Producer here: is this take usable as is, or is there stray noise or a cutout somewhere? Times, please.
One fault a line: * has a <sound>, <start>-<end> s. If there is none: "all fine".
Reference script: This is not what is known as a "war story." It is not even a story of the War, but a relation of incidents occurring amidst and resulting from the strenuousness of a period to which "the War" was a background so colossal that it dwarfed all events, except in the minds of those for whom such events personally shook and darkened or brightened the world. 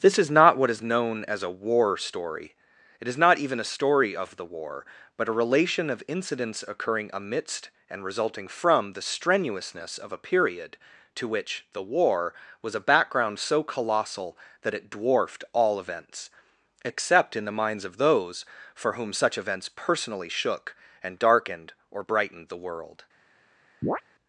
* has a chirp, 23.8-24.0 s